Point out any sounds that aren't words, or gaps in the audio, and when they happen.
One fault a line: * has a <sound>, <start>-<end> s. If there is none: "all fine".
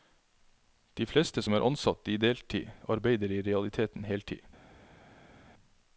all fine